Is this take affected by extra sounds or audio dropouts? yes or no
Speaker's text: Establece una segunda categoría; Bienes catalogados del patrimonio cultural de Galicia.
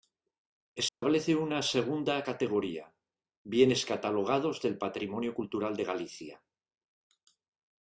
yes